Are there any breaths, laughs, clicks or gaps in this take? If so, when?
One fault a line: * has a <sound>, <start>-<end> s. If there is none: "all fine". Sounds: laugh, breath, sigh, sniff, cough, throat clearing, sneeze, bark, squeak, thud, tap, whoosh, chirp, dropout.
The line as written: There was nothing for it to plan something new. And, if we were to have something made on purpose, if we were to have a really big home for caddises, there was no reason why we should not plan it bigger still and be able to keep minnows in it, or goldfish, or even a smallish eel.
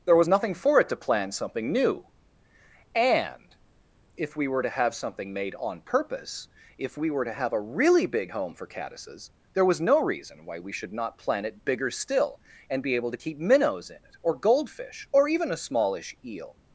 all fine